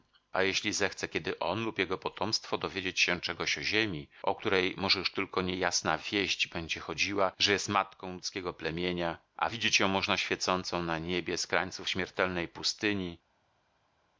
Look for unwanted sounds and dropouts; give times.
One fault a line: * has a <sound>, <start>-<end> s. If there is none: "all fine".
all fine